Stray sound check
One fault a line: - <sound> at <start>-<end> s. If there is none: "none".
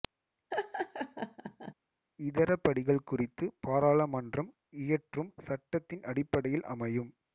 - laugh at 0.5-1.7 s